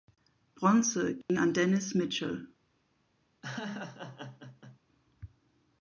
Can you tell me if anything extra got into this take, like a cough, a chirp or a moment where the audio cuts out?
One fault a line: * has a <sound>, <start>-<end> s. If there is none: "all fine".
* has a dropout, 1.2-1.3 s
* has a laugh, 3.4-4.8 s